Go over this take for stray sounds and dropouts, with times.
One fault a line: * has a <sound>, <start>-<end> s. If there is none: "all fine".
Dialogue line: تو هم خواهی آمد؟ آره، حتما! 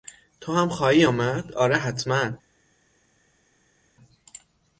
all fine